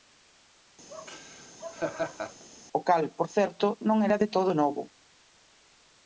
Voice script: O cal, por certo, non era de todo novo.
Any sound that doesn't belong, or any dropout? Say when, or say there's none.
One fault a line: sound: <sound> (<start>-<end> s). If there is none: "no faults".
sound: laugh (0.9-2.4 s)